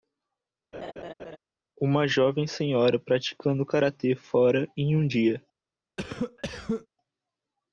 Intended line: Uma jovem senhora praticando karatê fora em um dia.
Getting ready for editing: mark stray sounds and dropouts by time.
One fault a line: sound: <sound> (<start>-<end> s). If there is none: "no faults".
sound: laugh (0.7-1.4 s)
sound: cough (6.0-6.9 s)